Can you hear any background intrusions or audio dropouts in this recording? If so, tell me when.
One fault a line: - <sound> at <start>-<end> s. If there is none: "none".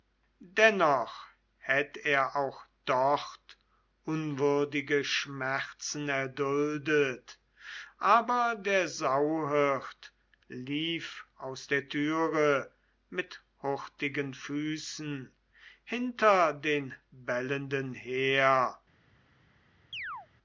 - chirp at 19.9-20.3 s